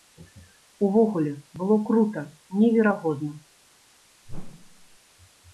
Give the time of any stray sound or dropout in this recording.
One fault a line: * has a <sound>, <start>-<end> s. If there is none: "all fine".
* has a whoosh, 4.3-5.0 s